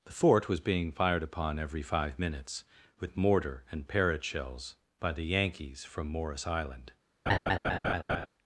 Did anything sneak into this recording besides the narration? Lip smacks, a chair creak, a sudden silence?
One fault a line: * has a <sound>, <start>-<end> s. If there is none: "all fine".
* has a laugh, 7.3-8.3 s